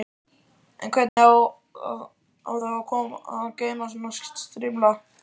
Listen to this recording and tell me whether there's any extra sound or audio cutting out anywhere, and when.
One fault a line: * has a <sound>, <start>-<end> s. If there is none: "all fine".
* has a dropout, 1.1-1.2 s